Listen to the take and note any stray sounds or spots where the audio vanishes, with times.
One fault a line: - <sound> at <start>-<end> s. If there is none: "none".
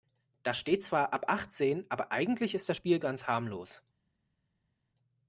none